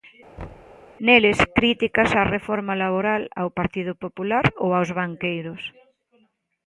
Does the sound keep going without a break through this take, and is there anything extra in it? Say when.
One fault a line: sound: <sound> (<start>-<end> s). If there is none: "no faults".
sound: thud (0.4-0.8 s)